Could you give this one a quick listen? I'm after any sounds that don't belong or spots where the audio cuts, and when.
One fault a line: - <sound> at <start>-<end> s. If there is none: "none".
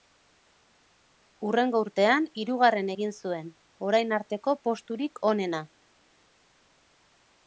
none